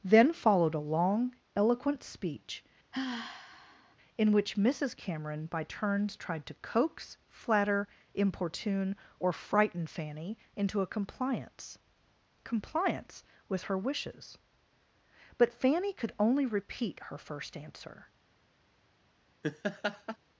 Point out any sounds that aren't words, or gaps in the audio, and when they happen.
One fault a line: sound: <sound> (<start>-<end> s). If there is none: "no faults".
sound: sigh (2.9-4.0 s)
sound: laugh (19.4-20.2 s)